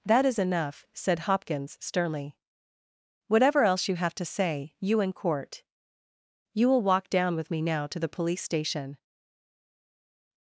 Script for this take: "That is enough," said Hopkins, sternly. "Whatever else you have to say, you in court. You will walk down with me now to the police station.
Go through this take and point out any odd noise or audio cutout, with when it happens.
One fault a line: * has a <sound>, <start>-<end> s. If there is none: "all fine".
all fine